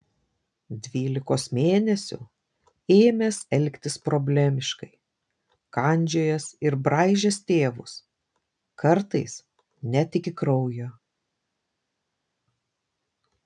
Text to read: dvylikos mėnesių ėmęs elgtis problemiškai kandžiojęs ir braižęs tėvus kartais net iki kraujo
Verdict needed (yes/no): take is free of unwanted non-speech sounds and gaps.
yes